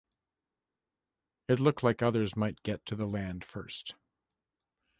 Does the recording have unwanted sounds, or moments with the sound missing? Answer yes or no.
no